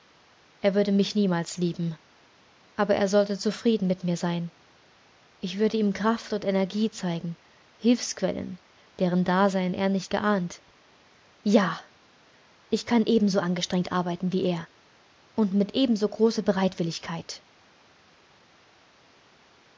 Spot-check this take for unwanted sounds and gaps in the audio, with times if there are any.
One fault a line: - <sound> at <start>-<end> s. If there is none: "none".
none